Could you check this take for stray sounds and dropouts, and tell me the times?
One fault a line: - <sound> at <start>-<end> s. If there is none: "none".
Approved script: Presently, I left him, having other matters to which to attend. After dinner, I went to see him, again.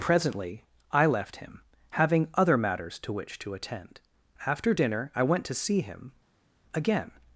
none